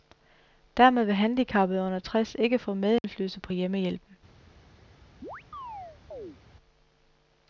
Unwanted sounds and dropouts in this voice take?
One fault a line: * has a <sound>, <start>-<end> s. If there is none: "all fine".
* has a dropout, 3.0-3.0 s
* has a chirp, 5.2-6.4 s